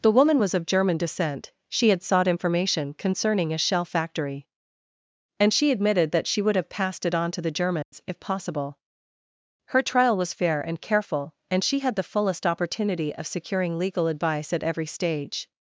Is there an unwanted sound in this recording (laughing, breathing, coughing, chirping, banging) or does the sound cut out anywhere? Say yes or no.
yes